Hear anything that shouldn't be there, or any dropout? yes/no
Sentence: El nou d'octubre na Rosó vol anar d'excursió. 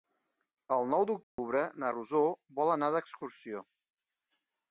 yes